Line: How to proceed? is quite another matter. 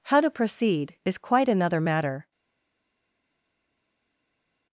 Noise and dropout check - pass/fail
pass